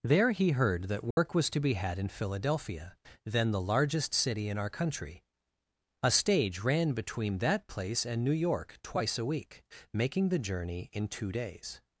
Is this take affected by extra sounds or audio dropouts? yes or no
yes